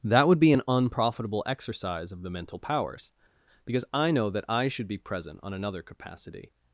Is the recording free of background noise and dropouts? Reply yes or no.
yes